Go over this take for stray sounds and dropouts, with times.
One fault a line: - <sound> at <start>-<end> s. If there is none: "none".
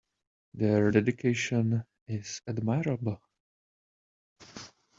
none